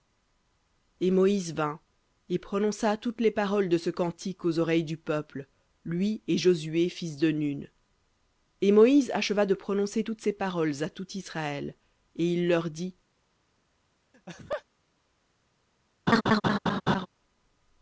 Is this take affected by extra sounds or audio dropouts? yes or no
yes